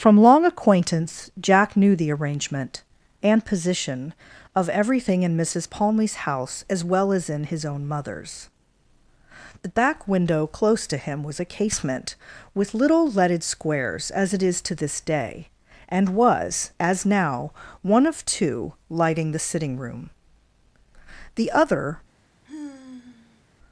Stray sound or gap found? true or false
true